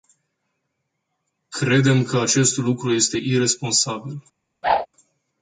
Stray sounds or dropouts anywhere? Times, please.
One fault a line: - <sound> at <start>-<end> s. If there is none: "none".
- whoosh at 4.6-4.9 s